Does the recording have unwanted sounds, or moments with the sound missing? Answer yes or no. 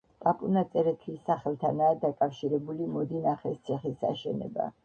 no